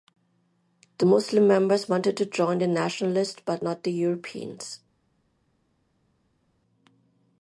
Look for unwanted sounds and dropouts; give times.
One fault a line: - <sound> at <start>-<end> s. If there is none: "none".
none